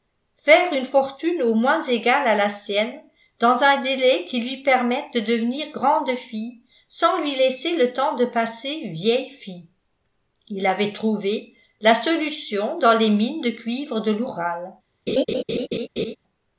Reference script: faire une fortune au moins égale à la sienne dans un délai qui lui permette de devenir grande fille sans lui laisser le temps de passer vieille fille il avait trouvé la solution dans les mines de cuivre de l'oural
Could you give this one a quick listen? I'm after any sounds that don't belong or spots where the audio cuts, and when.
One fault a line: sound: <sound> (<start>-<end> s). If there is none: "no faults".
sound: laugh (15.1-16.2 s)